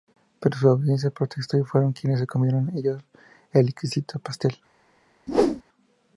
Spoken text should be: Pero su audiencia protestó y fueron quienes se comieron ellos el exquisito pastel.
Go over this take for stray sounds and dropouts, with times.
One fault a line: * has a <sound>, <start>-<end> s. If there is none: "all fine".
* has a whoosh, 5.3-5.6 s